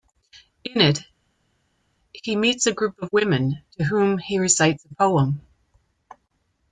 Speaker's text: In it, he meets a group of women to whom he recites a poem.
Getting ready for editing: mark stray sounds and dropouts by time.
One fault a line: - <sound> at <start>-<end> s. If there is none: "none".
none